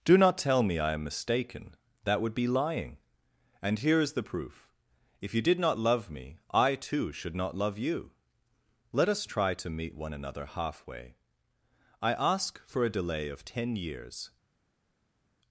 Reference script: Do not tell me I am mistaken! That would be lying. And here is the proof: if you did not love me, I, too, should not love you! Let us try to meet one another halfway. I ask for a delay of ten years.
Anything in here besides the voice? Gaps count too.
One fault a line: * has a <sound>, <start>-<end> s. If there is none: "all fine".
all fine